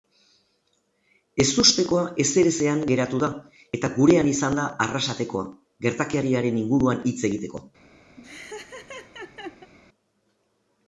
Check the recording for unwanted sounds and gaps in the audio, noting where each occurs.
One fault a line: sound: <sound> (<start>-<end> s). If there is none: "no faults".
sound: laugh (8.2-9.7 s)